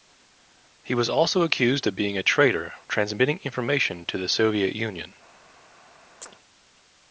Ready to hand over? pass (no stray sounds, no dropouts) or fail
fail